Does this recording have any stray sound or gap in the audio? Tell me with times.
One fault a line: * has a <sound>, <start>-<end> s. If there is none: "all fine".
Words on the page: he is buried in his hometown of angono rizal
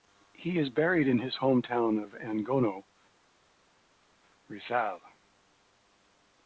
all fine